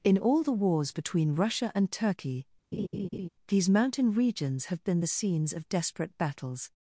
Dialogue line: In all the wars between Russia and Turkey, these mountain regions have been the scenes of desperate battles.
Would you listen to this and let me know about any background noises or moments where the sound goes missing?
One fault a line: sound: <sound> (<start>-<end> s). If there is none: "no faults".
sound: laugh (2.7-3.3 s)